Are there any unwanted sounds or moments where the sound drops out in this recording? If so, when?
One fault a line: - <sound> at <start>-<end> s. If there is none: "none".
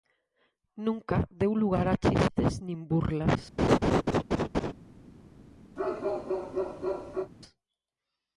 - laugh at 3.6-4.7 s
- bark at 5.8-7.3 s